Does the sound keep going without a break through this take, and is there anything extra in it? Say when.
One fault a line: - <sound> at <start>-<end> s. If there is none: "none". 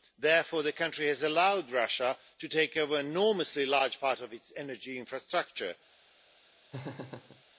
- laugh at 6.7-7.4 s